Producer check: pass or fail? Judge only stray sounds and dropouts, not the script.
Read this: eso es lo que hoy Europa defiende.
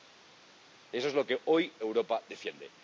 pass